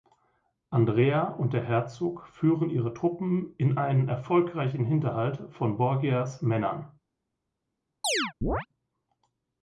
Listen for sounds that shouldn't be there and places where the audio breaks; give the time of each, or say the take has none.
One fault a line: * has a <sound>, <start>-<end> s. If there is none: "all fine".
* has a chirp, 8.0-8.7 s